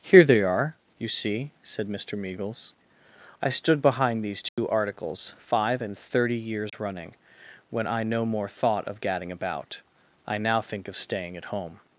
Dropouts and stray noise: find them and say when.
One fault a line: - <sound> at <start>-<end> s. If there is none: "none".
- dropout at 4.5-4.6 s
- dropout at 6.7-6.7 s